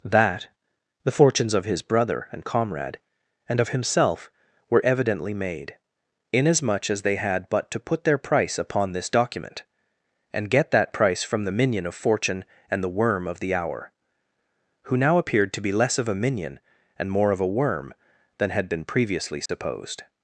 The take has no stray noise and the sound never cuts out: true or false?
false